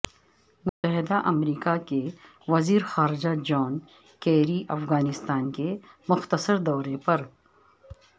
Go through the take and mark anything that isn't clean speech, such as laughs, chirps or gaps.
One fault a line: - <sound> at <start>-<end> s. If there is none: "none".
- dropout at 0.7-0.8 s